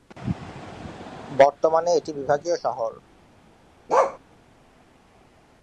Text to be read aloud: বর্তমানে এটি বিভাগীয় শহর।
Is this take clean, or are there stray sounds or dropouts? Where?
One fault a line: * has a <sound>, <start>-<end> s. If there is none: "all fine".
* has a bark, 3.9-4.2 s